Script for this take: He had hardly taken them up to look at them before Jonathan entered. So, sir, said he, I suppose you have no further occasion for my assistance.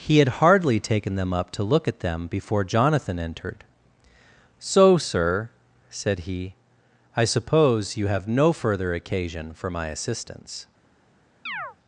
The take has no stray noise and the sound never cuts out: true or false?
false